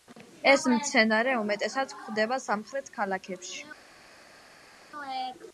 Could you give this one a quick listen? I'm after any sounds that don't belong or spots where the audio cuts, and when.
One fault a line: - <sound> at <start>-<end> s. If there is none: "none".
none